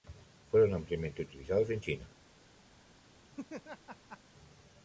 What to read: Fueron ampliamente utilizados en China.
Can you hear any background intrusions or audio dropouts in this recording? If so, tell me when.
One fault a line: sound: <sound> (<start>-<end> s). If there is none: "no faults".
sound: laugh (3.3-4.2 s)